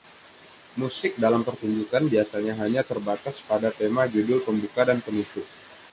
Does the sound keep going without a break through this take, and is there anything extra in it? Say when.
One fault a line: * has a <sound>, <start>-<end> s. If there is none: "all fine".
all fine